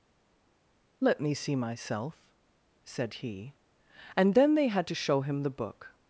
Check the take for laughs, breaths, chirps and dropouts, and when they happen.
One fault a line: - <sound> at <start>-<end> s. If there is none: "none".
none